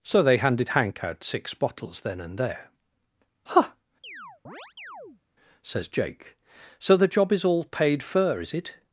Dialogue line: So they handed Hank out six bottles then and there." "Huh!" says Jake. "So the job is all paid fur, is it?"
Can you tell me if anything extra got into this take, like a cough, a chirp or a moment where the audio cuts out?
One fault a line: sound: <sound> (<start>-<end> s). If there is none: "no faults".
sound: chirp (4.0-5.2 s)